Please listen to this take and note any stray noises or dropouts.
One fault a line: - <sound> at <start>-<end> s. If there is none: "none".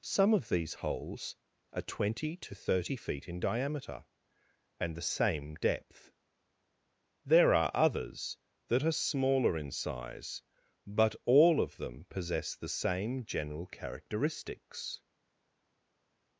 none